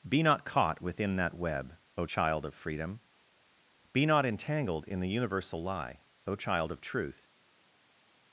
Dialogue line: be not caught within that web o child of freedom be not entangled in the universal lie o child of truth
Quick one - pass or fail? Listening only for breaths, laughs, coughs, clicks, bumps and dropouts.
pass